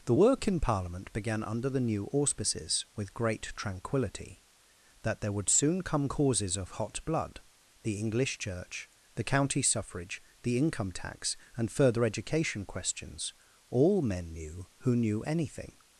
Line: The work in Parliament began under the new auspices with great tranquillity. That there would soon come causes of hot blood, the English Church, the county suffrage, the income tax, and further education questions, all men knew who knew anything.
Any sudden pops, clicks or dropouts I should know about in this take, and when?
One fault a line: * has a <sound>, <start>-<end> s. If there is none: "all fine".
all fine